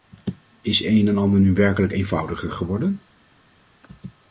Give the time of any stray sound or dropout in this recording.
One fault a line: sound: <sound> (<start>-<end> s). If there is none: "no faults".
no faults